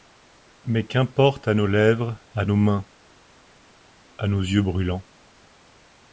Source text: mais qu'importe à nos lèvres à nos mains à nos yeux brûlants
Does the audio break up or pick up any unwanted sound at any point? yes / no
no